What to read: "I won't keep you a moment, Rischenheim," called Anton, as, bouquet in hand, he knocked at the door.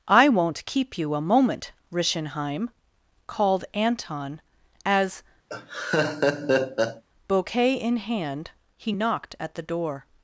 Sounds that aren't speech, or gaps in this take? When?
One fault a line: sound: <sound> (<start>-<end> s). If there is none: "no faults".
sound: laugh (5.5-7.0 s)